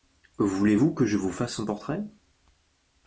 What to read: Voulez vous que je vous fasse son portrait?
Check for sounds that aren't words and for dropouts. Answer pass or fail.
pass